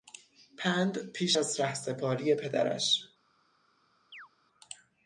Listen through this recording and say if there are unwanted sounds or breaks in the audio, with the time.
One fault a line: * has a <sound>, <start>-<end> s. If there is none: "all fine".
* has a chirp, 4.1-4.3 s